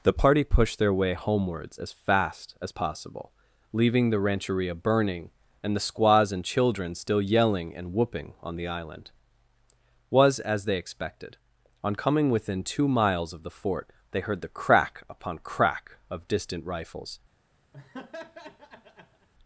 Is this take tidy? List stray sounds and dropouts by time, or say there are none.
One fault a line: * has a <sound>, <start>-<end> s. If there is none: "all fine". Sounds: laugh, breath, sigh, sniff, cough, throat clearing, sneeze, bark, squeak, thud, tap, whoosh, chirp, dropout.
* has a laugh, 17.7-19.3 s